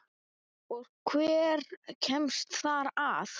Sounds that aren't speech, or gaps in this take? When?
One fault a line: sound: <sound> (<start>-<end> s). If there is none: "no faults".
no faults